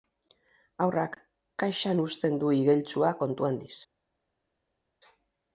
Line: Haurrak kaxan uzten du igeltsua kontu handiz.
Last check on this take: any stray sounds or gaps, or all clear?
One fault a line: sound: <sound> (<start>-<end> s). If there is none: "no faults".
no faults